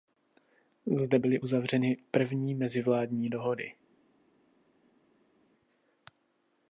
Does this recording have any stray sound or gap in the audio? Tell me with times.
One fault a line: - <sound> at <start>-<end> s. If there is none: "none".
none